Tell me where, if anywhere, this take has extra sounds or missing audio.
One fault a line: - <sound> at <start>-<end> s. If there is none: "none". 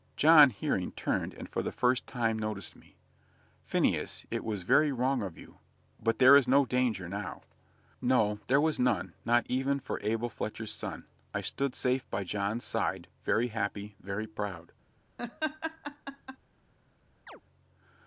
- laugh at 15.2-16.4 s
- chirp at 17.3-17.4 s